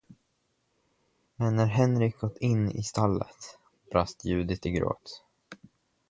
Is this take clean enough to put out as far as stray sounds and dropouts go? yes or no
yes